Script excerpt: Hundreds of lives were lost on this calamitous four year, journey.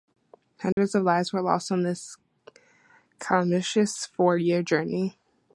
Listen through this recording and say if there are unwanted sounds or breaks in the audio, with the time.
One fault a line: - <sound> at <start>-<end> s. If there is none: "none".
- dropout at 0.7-0.8 s